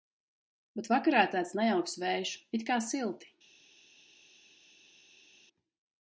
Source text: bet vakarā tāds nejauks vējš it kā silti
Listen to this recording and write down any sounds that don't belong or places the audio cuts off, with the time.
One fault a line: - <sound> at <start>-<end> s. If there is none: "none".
none